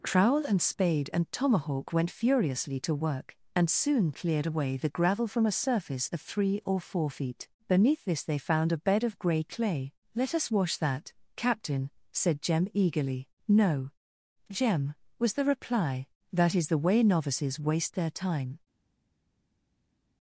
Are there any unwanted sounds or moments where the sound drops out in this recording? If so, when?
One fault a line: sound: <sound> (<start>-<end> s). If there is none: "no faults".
no faults